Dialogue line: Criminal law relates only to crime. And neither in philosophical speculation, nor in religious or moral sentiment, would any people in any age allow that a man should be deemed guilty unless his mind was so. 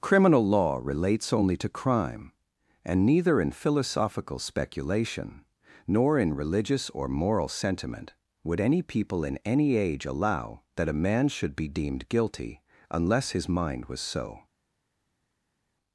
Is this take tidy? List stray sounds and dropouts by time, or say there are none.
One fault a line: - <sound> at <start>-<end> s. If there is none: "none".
none